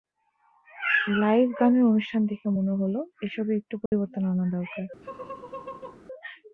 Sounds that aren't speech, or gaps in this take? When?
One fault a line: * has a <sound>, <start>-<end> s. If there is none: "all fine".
* has a dropout, 3.9-3.9 s
* has a laugh, 5.0-6.0 s